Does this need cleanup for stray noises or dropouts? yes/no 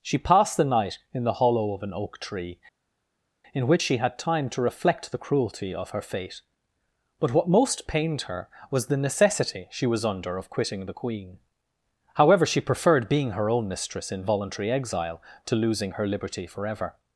no